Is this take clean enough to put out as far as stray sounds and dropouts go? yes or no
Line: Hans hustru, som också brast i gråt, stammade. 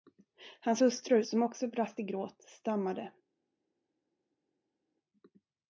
yes